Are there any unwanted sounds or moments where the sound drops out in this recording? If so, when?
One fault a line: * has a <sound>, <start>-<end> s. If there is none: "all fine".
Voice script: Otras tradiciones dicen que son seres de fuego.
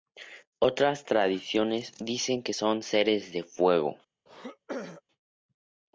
* has a throat clearing, 4.3-5.0 s